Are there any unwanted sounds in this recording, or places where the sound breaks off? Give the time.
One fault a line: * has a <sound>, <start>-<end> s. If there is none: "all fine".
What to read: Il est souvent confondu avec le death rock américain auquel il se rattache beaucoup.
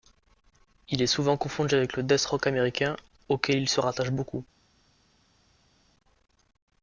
all fine